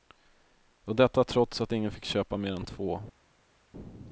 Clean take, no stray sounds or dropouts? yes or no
yes